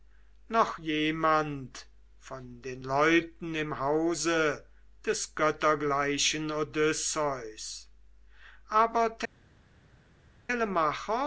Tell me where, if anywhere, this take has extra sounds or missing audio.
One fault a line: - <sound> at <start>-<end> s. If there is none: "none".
none